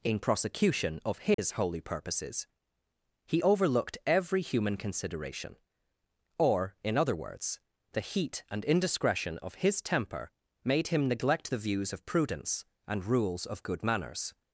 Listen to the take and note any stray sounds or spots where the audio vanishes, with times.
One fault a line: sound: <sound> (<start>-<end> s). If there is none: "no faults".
sound: dropout (1.3-1.4 s)